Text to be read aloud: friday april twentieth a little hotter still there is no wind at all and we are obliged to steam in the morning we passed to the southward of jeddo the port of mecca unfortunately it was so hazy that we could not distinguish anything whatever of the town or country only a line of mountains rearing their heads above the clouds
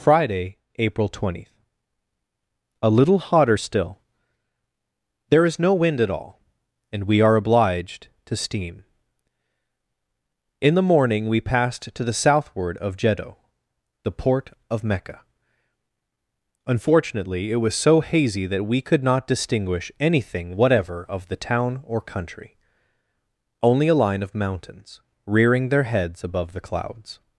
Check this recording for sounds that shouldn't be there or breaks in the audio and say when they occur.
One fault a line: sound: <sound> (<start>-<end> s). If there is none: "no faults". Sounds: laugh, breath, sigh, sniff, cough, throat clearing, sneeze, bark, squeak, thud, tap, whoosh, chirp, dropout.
no faults